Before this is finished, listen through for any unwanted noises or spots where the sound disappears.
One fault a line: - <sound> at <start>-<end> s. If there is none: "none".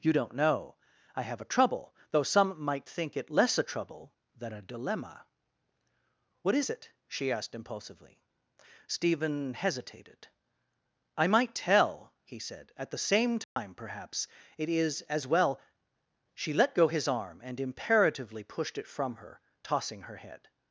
- dropout at 13.4-13.6 s